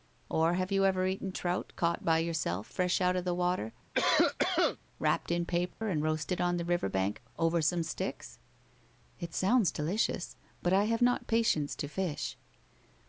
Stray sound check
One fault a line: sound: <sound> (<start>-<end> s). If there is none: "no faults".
sound: cough (3.9-4.8 s)
sound: dropout (5.7-5.8 s)